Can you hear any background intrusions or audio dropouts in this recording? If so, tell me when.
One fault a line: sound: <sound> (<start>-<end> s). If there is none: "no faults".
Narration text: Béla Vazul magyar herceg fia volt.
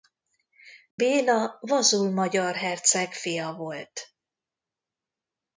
sound: dropout (0.9-1.0 s)